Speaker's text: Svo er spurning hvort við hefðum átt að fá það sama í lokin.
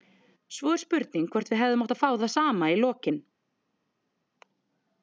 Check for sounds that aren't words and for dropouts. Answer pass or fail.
pass